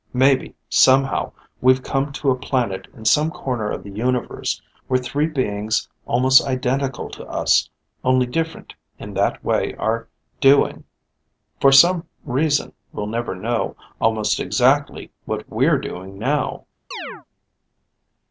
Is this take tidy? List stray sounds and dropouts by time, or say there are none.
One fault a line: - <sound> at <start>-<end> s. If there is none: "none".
- chirp at 16.9-17.3 s